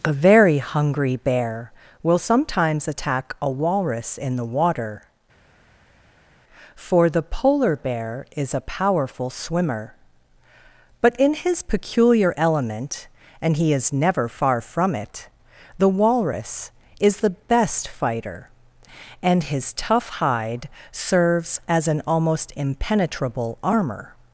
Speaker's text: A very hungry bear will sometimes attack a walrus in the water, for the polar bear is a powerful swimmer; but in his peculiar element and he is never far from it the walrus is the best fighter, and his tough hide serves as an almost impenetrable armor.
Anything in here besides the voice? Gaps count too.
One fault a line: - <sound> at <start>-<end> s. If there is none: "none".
none